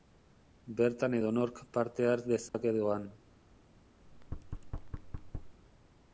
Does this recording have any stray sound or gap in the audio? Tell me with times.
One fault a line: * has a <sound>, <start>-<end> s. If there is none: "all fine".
* has a dropout, 2.5-2.5 s
* has a thud, 4.0-5.6 s